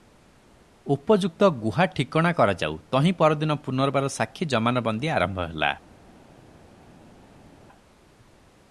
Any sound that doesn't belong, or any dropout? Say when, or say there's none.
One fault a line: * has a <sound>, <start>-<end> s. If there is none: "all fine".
all fine